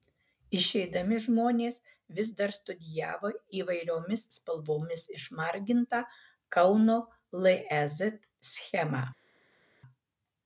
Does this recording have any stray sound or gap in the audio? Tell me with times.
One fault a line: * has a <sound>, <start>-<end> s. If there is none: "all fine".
all fine